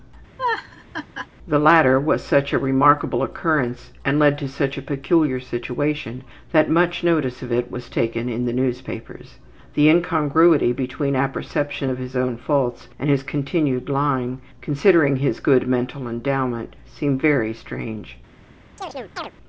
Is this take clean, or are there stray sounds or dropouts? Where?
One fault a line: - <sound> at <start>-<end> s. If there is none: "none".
- laugh at 0.4-1.3 s
- chirp at 18.8-19.3 s